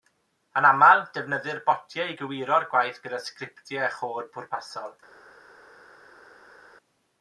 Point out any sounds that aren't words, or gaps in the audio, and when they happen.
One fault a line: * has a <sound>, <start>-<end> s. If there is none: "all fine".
all fine